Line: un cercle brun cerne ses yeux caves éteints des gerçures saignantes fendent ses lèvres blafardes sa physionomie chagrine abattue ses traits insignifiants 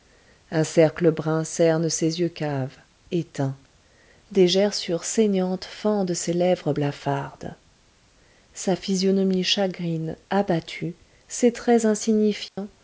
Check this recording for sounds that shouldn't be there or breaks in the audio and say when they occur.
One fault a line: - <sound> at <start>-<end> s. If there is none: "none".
- dropout at 12.5-12.6 s